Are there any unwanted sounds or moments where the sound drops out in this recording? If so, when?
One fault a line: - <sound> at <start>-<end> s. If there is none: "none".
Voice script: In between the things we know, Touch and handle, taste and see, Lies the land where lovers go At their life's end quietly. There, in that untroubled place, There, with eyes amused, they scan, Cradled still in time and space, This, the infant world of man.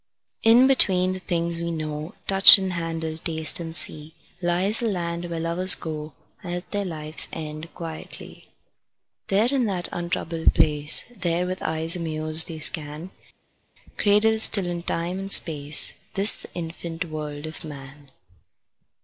none